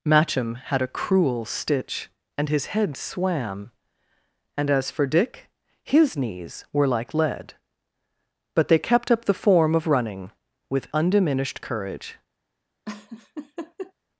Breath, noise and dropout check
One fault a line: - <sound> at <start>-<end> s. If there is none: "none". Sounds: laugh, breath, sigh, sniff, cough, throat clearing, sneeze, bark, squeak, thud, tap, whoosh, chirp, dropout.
- laugh at 12.9-13.9 s